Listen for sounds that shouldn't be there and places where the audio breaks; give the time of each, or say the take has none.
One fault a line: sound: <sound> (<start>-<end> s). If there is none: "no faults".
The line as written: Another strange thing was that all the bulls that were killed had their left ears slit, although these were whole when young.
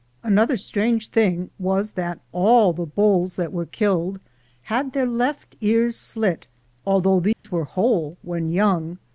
sound: dropout (7.3-7.4 s)